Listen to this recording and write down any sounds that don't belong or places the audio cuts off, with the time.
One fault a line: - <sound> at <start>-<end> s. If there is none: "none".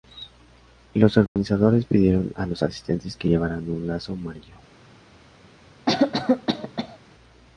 - dropout at 1.3-1.4 s
- cough at 5.9-7.0 s